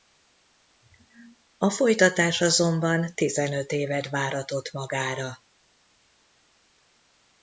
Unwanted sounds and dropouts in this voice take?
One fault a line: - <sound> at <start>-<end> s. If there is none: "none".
none